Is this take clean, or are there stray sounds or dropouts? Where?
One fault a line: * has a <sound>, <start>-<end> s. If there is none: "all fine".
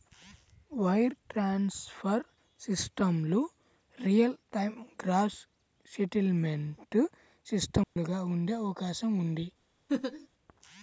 * has a dropout, 7.8-8.0 s
* has a laugh, 9.9-10.3 s